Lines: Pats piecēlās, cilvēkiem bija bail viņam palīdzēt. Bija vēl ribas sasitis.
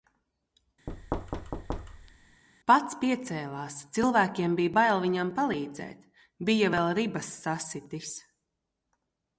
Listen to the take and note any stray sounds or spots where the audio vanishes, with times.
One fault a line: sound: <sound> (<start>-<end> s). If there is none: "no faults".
sound: thud (0.9-2.4 s)